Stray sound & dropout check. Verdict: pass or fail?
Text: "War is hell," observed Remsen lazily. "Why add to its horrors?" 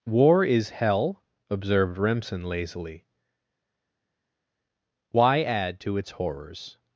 pass